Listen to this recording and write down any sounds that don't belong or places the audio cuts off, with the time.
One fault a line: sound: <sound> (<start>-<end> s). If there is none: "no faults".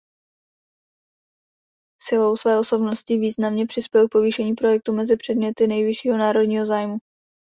no faults